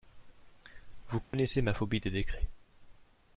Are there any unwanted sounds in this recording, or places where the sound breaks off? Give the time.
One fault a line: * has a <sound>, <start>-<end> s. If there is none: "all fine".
* has a dropout, 1.2-1.3 s